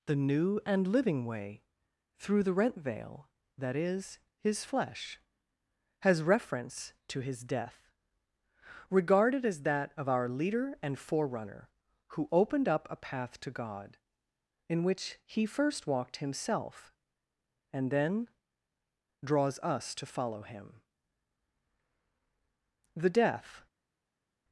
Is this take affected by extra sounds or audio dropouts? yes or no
no